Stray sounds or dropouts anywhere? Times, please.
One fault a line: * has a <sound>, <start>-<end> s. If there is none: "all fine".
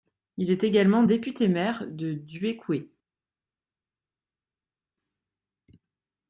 all fine